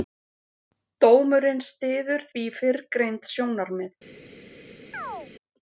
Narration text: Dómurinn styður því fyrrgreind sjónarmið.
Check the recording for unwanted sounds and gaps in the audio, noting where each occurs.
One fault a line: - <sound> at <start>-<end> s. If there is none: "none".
- chirp at 4.9-5.3 s